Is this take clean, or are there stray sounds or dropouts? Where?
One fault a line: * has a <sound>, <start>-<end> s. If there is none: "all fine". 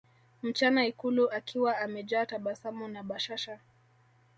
all fine